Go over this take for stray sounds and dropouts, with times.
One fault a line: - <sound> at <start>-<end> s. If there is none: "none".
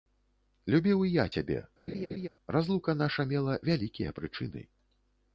- laugh at 1.9-2.3 s